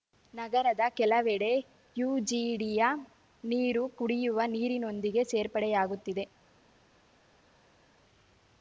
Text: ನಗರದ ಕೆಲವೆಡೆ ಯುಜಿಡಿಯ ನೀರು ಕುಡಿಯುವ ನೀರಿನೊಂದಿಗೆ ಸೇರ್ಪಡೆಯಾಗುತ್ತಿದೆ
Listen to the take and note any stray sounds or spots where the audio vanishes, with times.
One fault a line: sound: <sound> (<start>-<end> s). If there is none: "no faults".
no faults